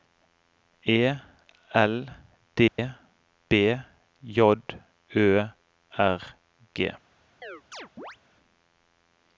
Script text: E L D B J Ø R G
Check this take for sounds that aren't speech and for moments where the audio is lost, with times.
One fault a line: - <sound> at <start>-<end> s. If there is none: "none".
- dropout at 2.7-2.8 s
- chirp at 7.4-8.2 s